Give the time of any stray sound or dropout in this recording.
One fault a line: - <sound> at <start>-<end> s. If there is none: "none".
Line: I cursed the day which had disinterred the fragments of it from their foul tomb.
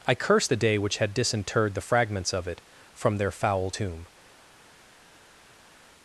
none